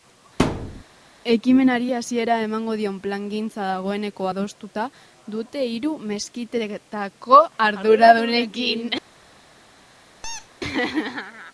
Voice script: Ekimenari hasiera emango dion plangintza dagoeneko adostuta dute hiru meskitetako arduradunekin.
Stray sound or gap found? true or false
true